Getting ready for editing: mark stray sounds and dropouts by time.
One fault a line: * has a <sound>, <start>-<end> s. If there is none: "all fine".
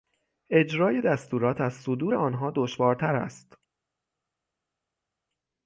all fine